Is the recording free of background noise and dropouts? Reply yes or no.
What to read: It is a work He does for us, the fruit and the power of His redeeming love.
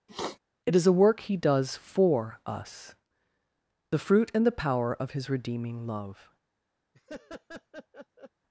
no